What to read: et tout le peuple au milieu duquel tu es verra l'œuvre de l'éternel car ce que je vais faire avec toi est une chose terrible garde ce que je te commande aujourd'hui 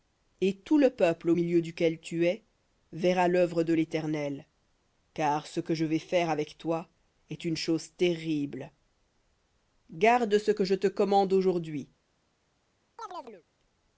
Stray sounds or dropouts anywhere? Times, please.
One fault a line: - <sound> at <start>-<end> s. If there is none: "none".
- chirp at 13.0-13.4 s